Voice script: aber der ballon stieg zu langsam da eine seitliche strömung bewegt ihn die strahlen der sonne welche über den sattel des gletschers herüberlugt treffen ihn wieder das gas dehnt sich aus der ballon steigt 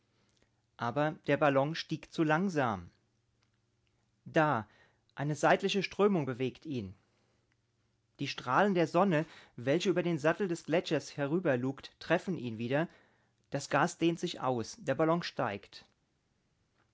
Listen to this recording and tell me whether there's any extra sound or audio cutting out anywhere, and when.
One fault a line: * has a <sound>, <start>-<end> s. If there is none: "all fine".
all fine